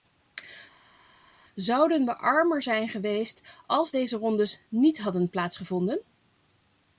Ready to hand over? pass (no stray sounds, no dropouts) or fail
pass